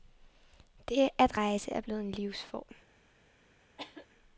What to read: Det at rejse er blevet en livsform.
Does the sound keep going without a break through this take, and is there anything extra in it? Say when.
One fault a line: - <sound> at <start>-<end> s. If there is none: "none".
- cough at 3.8-4.1 s